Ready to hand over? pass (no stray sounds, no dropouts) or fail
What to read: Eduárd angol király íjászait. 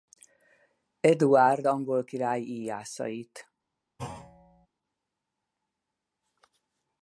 fail